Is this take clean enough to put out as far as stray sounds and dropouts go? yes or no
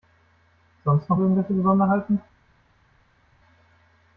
yes